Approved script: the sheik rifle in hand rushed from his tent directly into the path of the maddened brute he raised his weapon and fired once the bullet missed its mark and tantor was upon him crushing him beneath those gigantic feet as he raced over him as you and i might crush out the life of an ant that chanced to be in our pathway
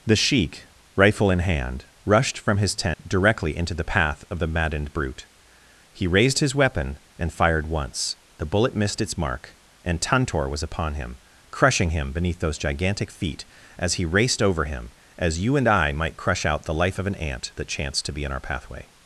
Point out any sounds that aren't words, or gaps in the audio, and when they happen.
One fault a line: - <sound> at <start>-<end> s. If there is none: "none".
- dropout at 2.9-3.0 s